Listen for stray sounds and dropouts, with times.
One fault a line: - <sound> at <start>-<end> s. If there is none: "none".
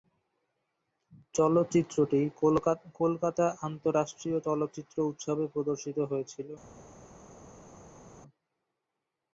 none